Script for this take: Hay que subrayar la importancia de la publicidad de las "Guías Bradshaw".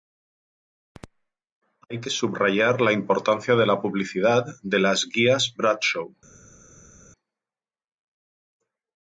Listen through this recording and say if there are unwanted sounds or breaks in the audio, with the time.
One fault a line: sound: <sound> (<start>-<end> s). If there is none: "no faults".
no faults